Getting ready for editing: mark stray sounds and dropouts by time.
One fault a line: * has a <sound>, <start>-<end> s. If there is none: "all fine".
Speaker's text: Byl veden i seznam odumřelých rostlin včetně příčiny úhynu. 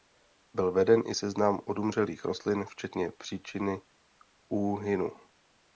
all fine